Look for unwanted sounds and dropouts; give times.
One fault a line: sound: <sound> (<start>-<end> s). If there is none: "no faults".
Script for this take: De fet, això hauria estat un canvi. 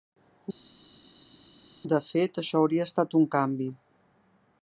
no faults